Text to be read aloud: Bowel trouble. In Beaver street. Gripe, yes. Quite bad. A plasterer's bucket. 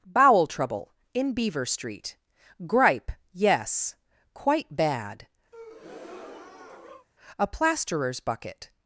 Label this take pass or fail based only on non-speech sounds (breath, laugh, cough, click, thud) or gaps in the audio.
fail